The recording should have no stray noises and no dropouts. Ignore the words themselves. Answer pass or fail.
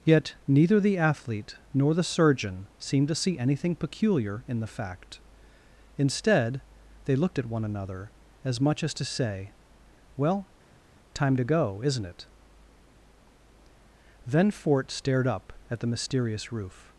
pass